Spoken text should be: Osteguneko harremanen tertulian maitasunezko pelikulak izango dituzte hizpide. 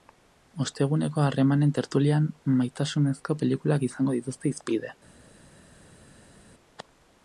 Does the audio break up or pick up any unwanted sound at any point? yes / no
no